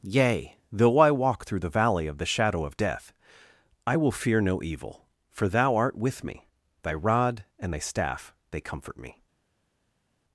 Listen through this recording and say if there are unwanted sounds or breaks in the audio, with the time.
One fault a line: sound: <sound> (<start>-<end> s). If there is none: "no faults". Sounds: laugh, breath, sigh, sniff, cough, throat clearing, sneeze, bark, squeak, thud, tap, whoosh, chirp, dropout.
no faults